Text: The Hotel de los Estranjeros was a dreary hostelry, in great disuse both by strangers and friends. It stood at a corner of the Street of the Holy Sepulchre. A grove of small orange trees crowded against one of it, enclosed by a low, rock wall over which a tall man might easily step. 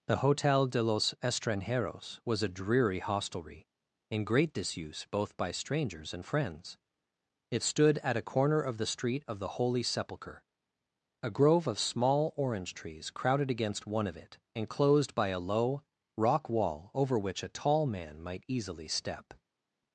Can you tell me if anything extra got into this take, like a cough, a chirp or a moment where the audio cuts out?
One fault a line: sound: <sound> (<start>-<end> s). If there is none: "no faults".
no faults